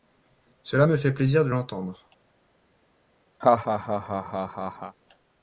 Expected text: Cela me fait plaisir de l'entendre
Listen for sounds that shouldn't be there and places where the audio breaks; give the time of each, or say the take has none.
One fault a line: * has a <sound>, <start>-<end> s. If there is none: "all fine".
* has a laugh, 3.4-5.0 s